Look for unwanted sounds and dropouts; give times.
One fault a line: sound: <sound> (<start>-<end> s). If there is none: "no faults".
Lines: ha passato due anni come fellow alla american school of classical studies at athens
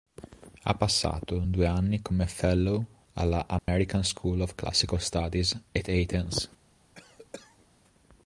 sound: dropout (3.6-3.7 s)
sound: cough (7.0-7.7 s)